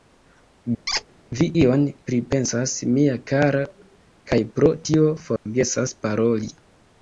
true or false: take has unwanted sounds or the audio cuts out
true